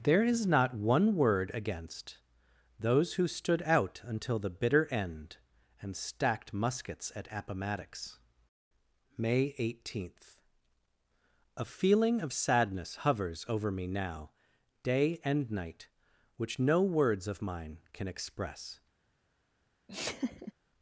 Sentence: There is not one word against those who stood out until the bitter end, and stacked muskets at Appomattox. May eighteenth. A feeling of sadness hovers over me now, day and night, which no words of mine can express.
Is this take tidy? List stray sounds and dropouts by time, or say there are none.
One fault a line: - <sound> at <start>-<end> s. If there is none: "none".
- laugh at 19.9-20.5 s